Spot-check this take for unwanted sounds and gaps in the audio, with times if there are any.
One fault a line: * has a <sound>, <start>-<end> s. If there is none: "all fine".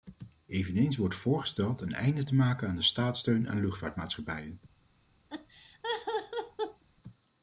* has a laugh, 5.3-6.8 s